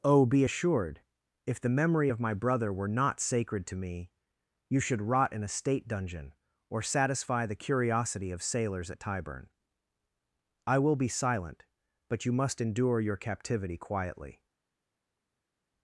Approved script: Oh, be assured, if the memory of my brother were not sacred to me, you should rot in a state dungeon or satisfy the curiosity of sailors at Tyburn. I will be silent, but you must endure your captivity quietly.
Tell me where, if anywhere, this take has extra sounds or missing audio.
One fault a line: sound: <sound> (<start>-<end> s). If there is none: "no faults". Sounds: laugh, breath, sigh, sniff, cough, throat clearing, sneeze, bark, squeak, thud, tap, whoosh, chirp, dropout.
no faults